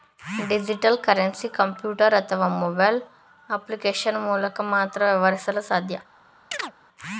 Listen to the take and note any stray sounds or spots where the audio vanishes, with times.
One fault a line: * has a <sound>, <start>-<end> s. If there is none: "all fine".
* has a chirp, 6.5-6.7 s